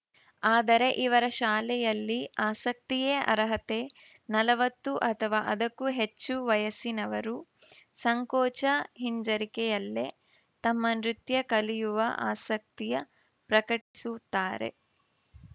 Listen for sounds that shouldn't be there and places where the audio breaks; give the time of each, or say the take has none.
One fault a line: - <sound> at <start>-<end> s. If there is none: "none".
- dropout at 13.8-13.9 s